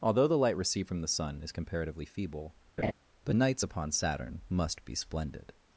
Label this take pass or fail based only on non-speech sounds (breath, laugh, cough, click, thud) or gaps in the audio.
fail